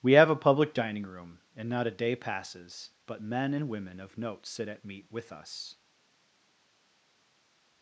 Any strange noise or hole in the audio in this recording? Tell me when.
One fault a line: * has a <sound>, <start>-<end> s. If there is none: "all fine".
all fine